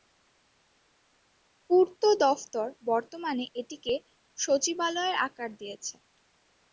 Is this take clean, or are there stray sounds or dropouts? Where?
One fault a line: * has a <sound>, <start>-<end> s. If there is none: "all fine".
all fine